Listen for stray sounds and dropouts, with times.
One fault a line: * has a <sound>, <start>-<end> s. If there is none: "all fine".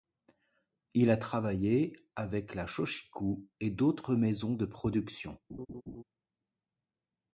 * has a laugh, 5.5-6.0 s